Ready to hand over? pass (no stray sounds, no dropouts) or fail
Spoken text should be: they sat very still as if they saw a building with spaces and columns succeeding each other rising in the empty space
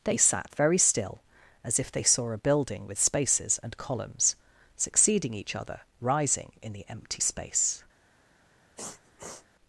fail